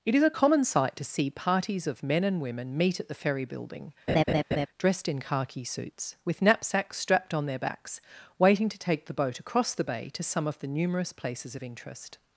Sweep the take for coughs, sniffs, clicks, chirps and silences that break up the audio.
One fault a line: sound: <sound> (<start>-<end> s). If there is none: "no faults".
sound: laugh (4.1-4.7 s)